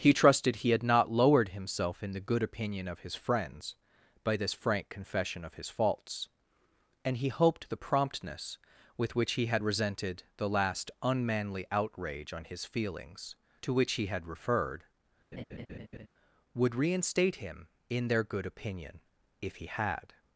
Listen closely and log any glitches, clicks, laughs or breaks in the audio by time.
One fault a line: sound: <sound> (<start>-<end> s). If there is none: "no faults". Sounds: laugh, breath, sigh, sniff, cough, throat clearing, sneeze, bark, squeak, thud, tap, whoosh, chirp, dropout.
sound: laugh (15.3-16.1 s)